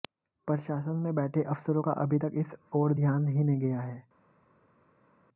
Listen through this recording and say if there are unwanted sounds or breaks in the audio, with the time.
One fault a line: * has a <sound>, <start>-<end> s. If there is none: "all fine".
all fine